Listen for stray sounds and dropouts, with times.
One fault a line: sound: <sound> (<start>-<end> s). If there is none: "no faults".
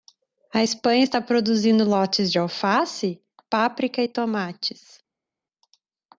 no faults